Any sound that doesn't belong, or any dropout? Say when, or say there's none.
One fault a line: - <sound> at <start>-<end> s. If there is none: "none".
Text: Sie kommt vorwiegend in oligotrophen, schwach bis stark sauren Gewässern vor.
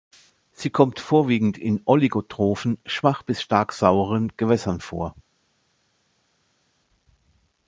none